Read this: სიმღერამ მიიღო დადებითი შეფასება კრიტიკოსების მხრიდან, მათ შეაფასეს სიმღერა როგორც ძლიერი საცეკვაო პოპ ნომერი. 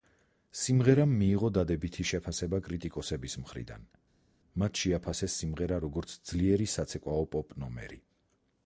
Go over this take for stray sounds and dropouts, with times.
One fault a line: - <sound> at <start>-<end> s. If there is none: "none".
none